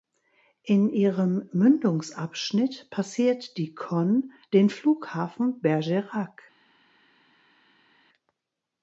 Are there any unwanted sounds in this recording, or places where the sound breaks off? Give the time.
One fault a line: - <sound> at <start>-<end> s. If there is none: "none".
none